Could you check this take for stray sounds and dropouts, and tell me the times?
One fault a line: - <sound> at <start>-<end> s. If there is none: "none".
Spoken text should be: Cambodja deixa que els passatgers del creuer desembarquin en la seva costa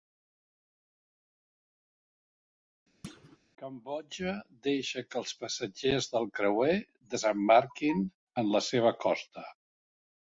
- thud at 3.0-3.4 s